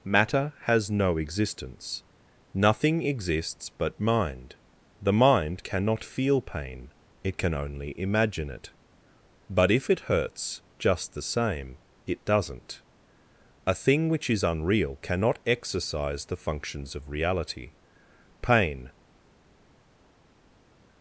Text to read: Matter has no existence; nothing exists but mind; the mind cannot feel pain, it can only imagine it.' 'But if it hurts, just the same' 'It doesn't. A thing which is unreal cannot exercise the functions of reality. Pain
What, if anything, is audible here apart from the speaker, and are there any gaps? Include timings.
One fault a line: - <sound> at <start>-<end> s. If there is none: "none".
none